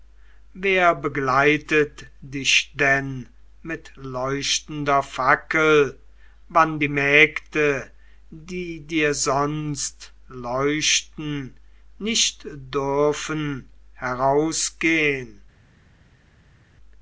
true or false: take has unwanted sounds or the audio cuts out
false